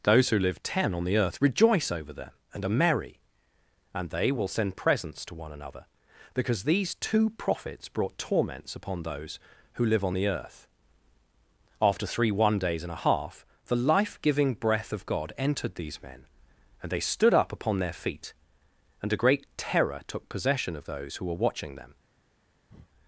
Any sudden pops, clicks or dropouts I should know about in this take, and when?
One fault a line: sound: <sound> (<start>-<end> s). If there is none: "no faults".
sound: breath (22.7-22.9 s)